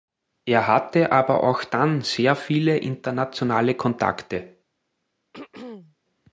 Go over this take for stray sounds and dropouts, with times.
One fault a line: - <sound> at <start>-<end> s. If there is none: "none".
- throat clearing at 5.3-6.0 s